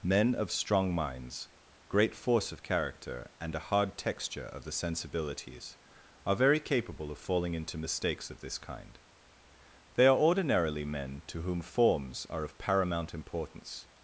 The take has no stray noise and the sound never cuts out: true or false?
true